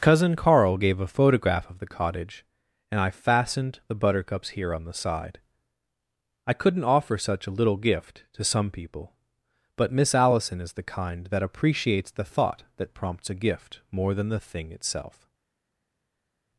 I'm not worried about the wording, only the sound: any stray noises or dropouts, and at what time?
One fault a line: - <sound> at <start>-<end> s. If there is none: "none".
none